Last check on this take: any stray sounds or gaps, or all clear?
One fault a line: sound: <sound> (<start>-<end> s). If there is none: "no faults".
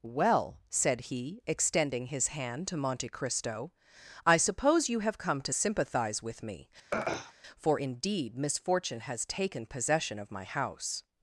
sound: throat clearing (6.9-7.3 s)